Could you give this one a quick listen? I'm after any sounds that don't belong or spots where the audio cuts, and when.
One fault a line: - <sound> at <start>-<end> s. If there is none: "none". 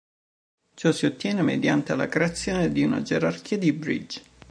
none